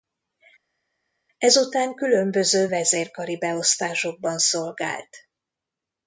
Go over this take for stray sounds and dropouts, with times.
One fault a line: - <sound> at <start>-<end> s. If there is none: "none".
none